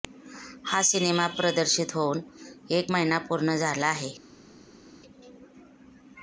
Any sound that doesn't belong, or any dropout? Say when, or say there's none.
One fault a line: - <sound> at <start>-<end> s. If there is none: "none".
none